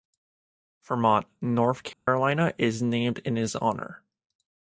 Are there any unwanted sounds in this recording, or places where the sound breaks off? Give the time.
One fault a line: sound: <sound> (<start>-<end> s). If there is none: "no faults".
sound: dropout (1.9-2.1 s)